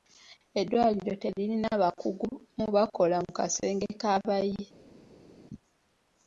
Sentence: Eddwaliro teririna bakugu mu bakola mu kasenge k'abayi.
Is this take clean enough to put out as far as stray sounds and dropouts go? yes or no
yes